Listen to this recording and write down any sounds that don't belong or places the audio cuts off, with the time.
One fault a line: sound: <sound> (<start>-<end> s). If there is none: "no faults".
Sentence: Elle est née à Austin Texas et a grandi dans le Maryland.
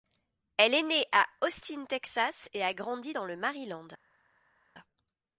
no faults